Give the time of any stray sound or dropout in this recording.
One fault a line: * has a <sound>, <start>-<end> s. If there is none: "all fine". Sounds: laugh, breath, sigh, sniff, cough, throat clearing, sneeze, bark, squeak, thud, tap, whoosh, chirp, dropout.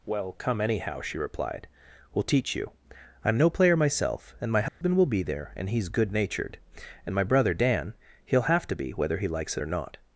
* has a dropout, 4.7-4.8 s